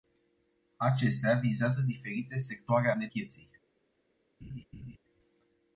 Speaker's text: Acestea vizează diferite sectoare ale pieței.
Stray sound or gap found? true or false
true